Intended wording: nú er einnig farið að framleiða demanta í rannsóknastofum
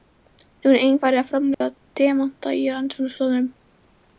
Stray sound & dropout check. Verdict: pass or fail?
fail